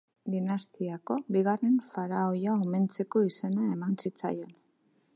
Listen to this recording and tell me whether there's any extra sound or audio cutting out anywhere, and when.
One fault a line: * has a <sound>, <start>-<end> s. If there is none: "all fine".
all fine